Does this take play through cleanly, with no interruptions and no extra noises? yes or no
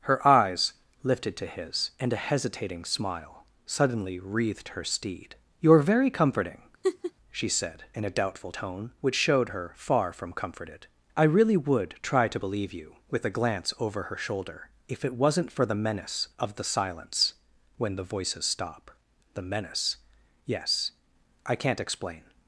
no